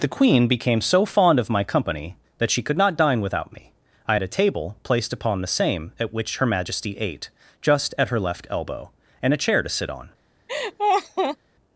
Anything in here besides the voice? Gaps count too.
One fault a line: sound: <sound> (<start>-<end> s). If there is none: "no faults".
sound: laugh (10.5-11.4 s)